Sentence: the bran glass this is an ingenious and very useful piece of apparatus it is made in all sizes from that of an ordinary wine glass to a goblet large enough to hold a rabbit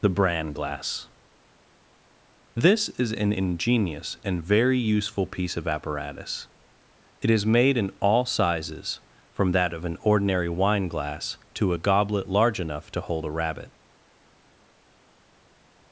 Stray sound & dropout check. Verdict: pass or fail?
pass